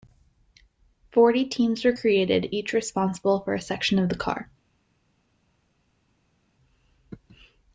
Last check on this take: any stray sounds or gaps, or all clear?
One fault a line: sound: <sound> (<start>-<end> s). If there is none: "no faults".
no faults